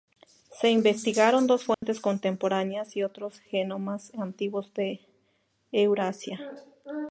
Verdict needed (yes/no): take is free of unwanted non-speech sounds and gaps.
no